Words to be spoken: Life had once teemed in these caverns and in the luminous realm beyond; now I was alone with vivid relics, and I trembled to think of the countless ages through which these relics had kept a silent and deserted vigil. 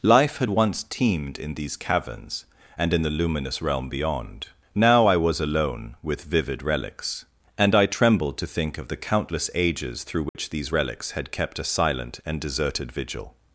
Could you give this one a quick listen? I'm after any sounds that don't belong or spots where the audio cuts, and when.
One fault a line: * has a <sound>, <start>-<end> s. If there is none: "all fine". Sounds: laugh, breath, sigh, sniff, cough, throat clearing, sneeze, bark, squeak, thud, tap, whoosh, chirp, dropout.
* has a dropout, 10.3-10.3 s